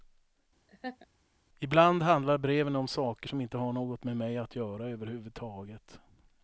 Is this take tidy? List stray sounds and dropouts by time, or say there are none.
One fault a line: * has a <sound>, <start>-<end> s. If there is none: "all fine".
* has a laugh, 0.7-1.1 s